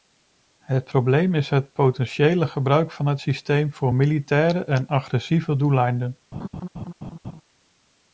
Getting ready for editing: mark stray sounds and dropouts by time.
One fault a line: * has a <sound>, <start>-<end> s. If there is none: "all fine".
* has a laugh, 6.3-7.4 s